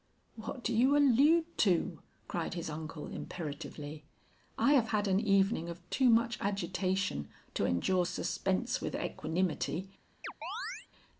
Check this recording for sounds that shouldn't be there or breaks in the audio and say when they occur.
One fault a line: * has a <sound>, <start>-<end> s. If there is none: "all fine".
* has a chirp, 10.2-10.9 s